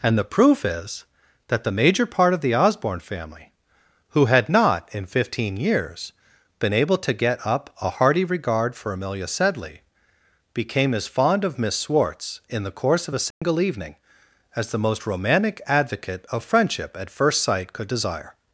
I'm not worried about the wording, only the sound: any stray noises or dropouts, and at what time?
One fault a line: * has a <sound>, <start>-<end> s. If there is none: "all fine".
* has a dropout, 13.3-13.4 s